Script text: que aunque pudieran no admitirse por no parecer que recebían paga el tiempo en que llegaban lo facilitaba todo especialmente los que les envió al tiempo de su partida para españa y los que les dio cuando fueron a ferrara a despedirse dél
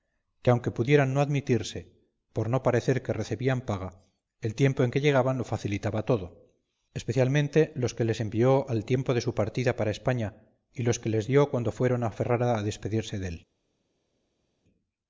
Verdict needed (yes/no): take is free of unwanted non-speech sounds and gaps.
yes